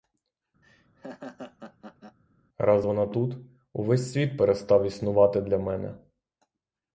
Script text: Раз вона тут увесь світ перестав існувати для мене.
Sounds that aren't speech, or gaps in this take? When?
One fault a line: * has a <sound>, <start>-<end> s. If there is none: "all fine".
* has a laugh, 0.6-2.2 s